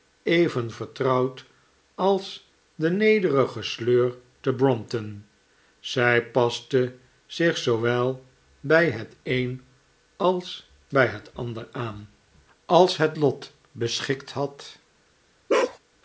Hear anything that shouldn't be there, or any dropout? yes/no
yes